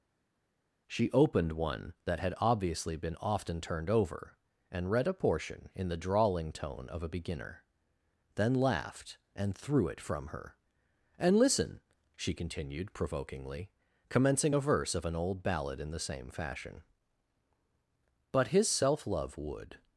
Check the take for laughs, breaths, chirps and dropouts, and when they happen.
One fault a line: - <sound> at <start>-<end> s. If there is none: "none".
none